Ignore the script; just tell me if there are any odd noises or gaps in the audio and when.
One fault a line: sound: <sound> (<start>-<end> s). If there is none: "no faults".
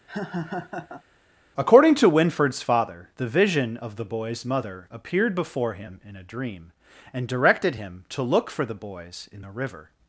sound: laugh (0.1-1.0 s)